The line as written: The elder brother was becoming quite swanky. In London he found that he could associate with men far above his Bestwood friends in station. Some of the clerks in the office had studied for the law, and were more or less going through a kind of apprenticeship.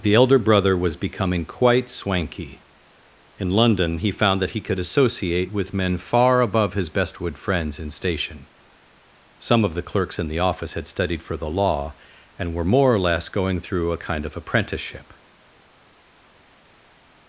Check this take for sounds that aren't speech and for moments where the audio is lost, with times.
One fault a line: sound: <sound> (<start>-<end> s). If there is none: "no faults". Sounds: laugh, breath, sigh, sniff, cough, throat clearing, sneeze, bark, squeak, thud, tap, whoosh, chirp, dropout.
no faults